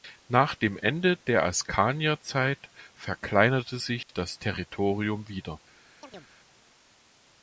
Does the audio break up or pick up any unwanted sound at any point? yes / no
yes